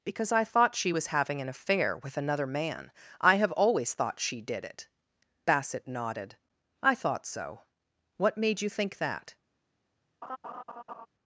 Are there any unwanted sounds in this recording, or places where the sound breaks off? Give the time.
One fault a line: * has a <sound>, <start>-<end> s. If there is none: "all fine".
* has a laugh, 10.2-11.1 s